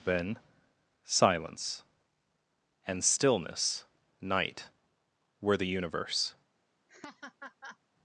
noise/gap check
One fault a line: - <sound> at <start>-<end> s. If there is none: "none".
- laugh at 6.9-7.8 s